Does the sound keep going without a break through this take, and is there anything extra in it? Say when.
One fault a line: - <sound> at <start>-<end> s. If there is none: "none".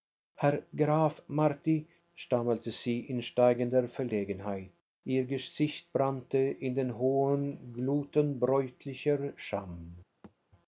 - thud at 10.2-10.4 s